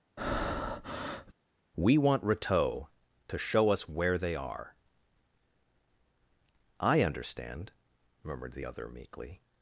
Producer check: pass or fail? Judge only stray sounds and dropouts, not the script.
fail